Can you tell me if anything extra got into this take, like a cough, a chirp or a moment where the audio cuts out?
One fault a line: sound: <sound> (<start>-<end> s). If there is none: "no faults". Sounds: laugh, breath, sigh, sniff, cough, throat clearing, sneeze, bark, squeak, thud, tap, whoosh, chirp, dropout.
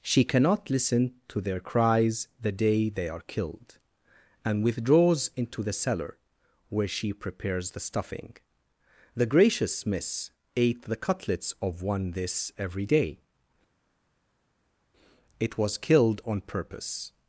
no faults